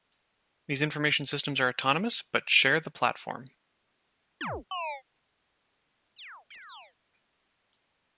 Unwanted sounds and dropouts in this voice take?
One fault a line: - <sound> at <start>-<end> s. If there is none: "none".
- chirp at 4.4-5.0 s
- chirp at 6.2-6.9 s